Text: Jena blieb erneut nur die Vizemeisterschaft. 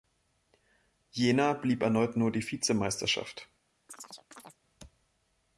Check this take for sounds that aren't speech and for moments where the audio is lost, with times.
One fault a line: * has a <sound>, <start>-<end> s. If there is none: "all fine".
* has a chirp, 3.9-4.6 s